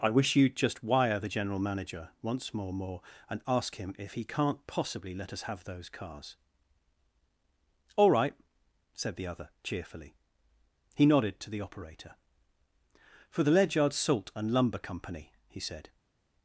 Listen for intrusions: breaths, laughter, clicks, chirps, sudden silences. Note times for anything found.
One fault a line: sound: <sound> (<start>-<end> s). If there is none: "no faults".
no faults